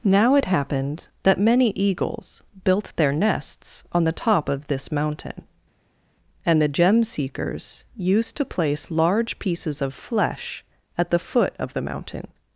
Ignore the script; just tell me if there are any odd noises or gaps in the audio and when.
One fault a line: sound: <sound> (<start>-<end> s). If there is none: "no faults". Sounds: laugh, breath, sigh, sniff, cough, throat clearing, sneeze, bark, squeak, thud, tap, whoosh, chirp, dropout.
no faults